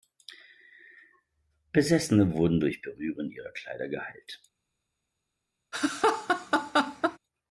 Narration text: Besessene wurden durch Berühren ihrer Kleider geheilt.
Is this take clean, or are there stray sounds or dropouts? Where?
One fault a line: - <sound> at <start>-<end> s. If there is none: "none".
- laugh at 5.7-7.2 s